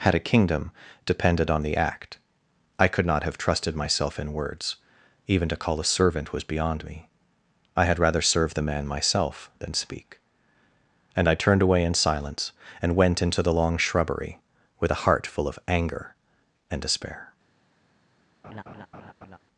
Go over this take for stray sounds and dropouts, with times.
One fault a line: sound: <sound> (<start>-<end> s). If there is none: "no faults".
sound: laugh (18.4-19.4 s)